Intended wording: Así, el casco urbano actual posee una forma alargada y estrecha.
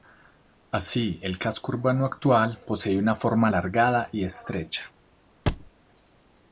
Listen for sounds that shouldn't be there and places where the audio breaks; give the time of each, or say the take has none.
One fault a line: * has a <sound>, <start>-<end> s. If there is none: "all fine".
* has a thud, 5.5-5.7 s